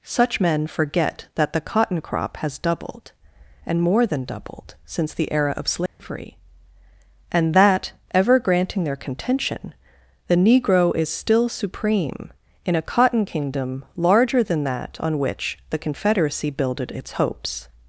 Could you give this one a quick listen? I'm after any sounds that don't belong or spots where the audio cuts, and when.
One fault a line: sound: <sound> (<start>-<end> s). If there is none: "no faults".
sound: dropout (5.9-6.0 s)